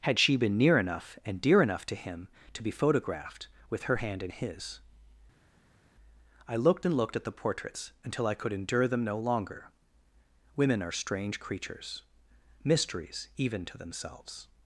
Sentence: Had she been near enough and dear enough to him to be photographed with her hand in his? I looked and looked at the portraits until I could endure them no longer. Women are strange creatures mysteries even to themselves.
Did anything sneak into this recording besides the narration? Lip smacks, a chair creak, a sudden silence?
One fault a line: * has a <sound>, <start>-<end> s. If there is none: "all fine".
all fine